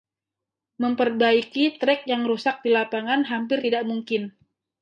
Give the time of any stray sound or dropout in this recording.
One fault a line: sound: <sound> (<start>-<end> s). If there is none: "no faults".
no faults